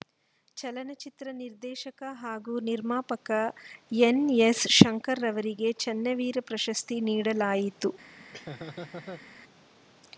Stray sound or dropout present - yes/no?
yes